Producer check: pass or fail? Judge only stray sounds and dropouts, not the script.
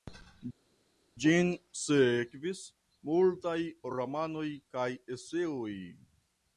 pass